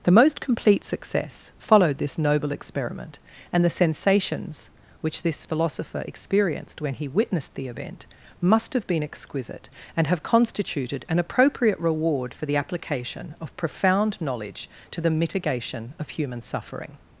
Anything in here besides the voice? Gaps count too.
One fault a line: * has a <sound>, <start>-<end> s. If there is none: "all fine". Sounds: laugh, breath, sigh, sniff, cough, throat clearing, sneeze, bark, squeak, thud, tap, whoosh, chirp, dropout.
all fine